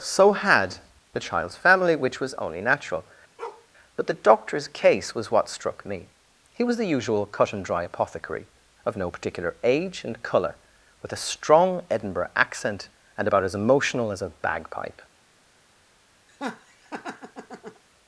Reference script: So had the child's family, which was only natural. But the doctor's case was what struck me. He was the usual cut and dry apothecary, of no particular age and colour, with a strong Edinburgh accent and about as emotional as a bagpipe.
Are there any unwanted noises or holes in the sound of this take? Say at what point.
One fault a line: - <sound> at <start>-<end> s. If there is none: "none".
- bark at 3.4-3.7 s
- laugh at 16.3-17.8 s